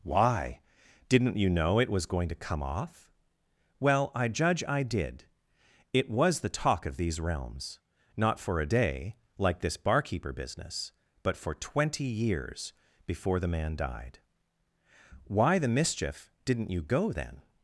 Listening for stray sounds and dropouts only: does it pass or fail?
pass